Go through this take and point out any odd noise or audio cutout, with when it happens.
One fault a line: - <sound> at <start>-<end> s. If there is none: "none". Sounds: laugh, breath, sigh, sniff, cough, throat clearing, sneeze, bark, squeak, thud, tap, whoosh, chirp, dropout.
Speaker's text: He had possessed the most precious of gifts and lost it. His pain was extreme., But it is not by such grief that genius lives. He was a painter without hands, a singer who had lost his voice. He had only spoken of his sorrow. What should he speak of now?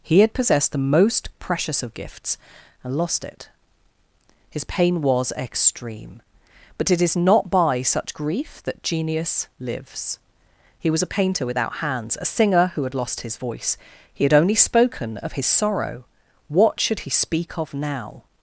none